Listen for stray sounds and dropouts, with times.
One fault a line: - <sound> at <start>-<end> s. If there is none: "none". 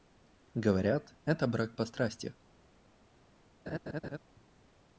- laugh at 3.7-4.2 s